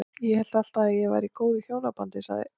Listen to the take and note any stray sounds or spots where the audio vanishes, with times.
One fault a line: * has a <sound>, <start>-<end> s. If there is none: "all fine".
all fine